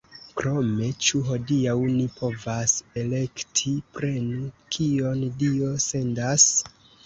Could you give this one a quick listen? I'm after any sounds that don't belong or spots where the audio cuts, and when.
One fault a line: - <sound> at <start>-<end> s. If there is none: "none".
none